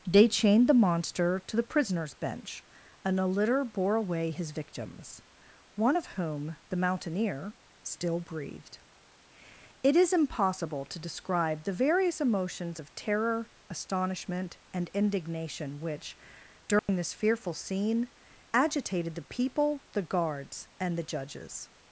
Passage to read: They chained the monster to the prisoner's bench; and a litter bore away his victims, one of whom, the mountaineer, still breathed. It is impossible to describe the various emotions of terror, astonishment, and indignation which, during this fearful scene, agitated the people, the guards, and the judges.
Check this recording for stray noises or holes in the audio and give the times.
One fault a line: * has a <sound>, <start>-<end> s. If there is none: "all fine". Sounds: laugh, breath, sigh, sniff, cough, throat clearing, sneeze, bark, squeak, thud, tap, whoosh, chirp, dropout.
* has a dropout, 16.8-16.9 s